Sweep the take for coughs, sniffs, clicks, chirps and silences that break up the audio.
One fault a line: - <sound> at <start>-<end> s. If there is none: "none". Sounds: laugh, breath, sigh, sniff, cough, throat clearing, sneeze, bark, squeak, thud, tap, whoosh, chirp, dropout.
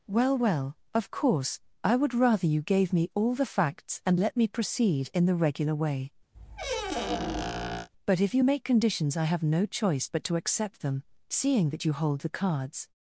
- squeak at 6.3-7.9 s